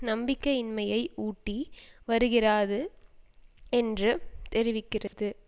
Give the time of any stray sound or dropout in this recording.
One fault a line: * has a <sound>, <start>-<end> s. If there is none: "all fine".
* has a dropout, 5.1-5.1 s